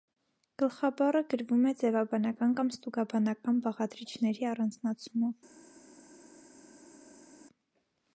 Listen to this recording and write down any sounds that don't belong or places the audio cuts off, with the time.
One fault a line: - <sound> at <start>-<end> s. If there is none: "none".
none